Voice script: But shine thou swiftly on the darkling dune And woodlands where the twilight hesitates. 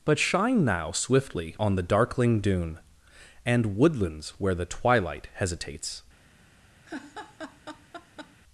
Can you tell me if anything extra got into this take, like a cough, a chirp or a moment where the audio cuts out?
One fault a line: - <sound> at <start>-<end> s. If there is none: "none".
- laugh at 6.8-8.4 s